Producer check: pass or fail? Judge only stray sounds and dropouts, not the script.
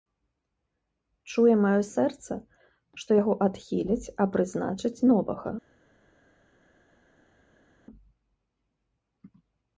pass